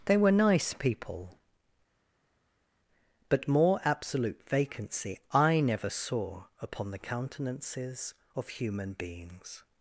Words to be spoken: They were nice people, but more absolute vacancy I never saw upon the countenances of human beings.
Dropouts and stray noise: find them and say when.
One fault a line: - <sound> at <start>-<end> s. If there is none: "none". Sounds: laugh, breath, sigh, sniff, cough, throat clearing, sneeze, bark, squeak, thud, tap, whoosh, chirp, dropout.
none